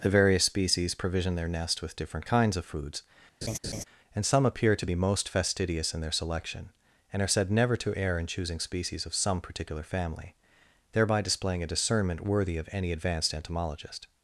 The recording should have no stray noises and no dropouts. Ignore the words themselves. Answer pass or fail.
fail